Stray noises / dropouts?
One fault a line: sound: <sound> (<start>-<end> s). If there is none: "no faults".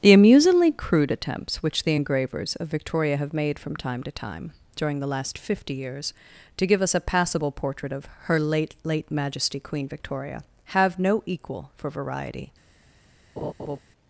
sound: laugh (13.4-13.8 s)